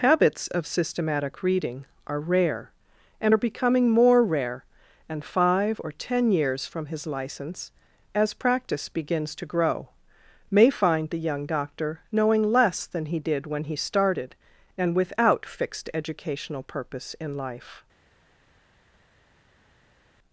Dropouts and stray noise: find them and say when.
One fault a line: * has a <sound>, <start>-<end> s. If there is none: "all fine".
all fine